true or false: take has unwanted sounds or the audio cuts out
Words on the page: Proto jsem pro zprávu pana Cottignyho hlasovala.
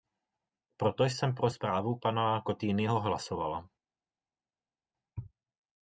false